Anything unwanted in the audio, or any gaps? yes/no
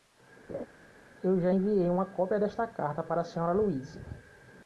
yes